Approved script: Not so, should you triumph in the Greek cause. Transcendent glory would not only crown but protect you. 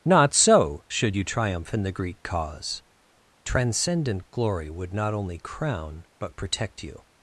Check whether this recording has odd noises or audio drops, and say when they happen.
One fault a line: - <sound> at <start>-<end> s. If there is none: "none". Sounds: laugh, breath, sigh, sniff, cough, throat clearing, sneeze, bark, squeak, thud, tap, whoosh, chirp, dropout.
none